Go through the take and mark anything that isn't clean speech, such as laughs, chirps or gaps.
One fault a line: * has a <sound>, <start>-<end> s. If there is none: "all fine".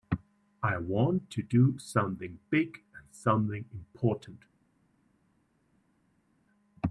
all fine